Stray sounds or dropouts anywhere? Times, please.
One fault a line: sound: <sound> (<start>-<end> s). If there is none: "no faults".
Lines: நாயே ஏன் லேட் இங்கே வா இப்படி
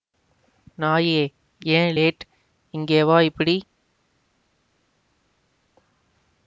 no faults